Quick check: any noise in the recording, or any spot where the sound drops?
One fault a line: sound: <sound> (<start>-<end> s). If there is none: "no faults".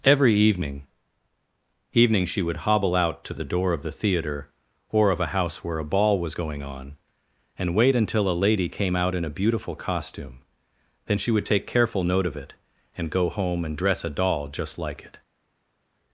no faults